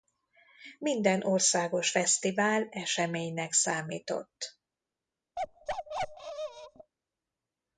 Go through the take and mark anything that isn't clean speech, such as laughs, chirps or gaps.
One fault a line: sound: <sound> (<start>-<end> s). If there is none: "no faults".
sound: bark (5.4-6.9 s)